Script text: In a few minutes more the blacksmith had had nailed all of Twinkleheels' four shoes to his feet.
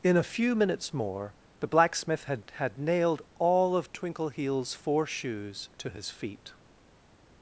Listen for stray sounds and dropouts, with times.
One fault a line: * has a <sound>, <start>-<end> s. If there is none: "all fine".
all fine